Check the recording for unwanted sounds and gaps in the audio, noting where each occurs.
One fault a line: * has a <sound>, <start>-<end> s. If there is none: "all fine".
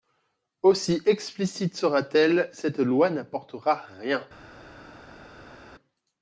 all fine